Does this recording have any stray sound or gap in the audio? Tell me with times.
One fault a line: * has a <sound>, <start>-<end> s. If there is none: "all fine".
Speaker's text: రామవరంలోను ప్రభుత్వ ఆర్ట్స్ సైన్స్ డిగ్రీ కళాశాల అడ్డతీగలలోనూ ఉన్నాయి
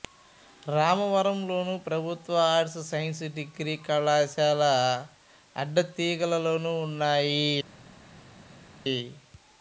all fine